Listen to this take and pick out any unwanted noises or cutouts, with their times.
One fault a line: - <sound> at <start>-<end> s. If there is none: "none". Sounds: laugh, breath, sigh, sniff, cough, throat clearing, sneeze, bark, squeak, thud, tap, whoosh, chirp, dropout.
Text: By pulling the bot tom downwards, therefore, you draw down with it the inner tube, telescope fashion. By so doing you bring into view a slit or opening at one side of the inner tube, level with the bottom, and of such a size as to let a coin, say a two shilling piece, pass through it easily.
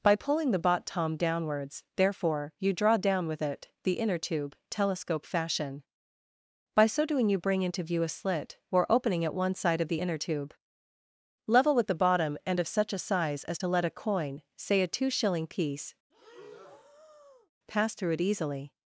- breath at 16.1-17.5 s